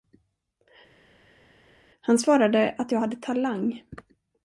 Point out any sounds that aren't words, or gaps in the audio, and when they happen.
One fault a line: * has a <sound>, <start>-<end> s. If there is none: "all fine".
all fine